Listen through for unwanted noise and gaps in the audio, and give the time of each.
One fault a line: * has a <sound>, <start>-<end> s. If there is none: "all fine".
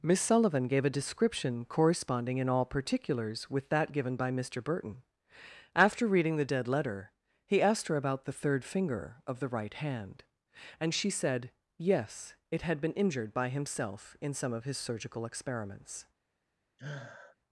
* has a sniff, 16.8-17.4 s